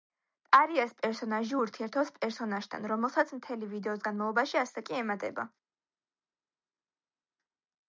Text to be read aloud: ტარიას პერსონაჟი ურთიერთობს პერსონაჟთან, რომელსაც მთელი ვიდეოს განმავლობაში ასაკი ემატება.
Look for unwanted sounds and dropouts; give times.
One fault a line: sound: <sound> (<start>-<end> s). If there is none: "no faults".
no faults